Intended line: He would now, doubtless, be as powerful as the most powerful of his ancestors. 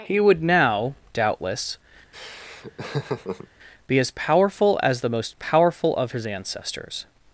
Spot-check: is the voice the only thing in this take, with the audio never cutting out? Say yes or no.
no